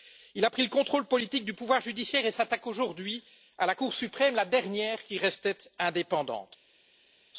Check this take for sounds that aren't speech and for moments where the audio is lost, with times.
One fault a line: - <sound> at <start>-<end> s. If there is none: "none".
none